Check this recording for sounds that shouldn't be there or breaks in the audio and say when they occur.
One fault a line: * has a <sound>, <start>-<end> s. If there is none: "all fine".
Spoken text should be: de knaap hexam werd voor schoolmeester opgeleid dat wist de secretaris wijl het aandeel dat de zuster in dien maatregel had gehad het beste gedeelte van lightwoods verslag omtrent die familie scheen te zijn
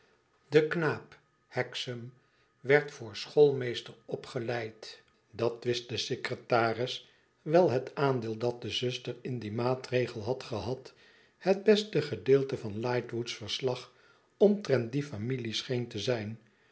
all fine